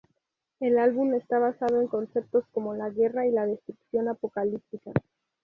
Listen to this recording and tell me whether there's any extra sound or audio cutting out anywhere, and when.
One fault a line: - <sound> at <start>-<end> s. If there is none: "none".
none